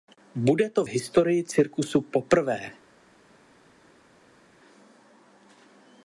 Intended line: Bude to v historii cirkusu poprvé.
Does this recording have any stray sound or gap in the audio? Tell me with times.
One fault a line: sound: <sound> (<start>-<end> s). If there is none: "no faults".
no faults